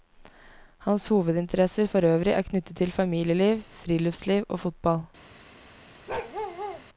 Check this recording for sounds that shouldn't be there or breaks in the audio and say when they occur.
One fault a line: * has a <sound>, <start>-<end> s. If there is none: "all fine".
* has a bark, 6.1-6.8 s